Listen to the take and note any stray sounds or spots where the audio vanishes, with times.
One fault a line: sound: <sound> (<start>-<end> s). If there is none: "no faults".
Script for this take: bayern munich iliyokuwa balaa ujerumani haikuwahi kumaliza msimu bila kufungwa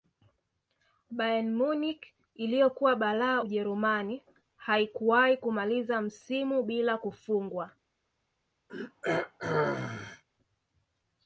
sound: throat clearing (8.7-10.2 s)